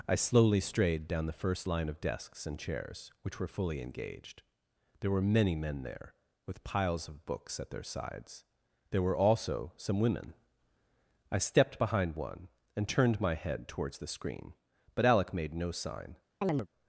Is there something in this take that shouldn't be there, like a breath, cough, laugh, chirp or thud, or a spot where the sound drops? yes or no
yes